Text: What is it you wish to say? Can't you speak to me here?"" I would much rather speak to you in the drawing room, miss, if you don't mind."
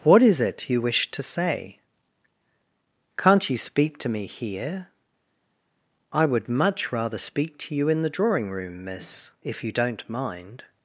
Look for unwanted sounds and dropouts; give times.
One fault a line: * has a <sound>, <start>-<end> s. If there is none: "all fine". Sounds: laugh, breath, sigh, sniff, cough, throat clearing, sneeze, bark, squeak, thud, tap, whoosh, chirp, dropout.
all fine